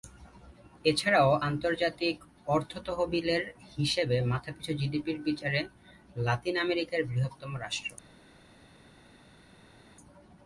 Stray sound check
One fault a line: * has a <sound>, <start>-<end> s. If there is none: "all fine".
all fine